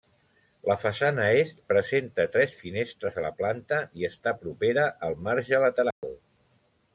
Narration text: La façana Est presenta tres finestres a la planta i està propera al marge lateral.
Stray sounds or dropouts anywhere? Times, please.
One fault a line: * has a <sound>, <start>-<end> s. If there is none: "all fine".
* has a dropout, 5.9-6.0 s